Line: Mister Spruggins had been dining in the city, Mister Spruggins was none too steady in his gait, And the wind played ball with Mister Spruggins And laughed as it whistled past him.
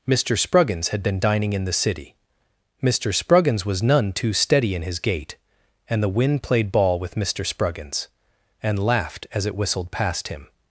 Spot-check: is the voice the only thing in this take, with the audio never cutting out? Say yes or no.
yes